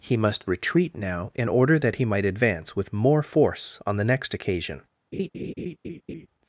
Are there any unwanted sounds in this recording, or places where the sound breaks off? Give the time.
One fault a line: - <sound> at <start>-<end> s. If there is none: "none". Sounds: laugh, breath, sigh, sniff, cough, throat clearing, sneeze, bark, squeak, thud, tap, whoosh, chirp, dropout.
- laugh at 5.1-6.3 s